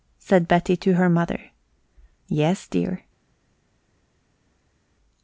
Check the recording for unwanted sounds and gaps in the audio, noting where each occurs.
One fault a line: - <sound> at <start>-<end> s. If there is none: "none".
none